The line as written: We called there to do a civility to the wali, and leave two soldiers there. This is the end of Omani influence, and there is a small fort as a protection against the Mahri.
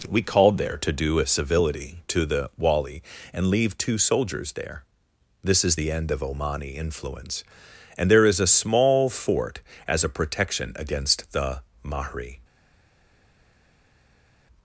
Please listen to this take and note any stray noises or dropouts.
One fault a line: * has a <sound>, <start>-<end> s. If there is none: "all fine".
all fine